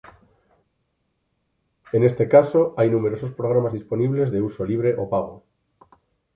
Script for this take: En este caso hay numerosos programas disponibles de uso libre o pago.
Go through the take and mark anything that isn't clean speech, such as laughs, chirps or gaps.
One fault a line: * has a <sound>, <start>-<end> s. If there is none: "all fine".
all fine